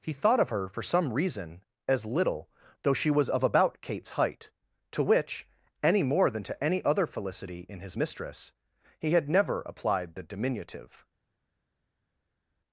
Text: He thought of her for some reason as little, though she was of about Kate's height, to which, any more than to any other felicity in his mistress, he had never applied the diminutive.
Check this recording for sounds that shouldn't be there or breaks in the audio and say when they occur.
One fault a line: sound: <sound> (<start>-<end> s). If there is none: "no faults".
no faults